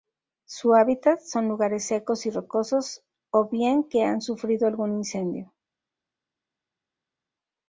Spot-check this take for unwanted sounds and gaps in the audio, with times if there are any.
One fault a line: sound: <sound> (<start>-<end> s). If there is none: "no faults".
no faults